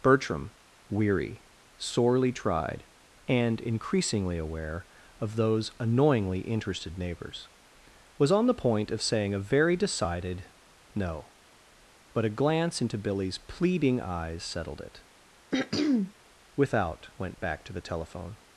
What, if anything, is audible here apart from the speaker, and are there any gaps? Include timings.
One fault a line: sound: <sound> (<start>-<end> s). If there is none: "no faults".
sound: throat clearing (15.5-16.1 s)